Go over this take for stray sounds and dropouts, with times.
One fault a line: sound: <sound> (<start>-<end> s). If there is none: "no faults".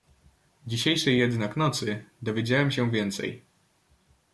no faults